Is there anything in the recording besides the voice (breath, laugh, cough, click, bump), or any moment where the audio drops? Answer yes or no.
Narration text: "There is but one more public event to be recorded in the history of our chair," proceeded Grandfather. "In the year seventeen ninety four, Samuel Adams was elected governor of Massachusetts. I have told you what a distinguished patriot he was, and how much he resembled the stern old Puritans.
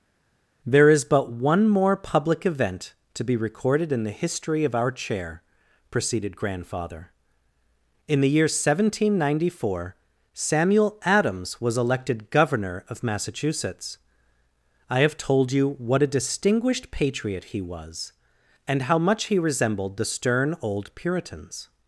no